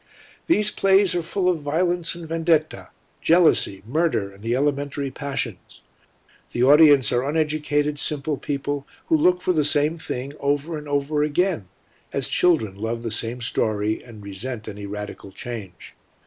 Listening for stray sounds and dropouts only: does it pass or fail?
pass